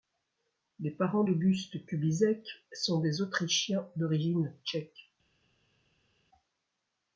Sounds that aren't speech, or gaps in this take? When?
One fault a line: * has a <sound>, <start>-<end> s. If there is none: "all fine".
all fine